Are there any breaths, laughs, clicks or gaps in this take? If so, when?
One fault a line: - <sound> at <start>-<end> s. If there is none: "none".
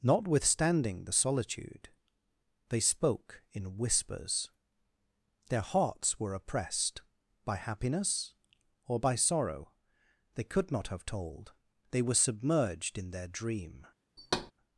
- thud at 14.2-14.5 s